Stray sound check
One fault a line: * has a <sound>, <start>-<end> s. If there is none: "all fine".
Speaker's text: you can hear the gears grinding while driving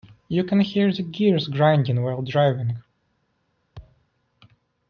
* has a thud, 3.8-4.1 s